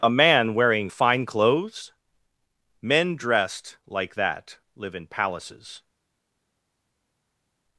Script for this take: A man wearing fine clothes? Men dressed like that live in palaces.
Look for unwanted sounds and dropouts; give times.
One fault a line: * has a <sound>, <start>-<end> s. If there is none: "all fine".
all fine